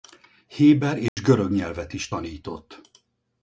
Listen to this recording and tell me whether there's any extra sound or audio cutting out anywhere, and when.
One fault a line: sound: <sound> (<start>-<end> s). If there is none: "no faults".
sound: dropout (1.1-1.2 s)